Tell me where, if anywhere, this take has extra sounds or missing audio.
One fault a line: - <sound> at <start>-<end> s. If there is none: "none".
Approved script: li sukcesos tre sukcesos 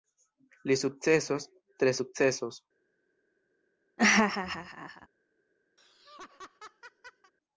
- laugh at 4.0-5.1 s
- laugh at 5.8-7.3 s